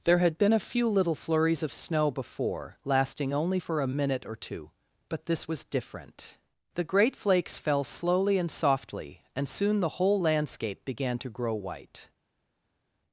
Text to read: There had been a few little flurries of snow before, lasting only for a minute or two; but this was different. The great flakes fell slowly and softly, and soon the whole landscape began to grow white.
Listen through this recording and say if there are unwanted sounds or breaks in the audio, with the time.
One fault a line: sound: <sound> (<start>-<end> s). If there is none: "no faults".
no faults